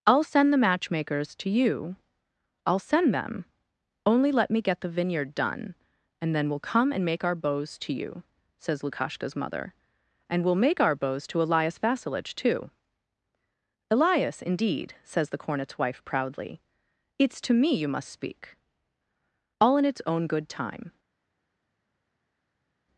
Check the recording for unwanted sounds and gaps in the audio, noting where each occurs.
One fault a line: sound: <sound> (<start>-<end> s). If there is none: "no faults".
no faults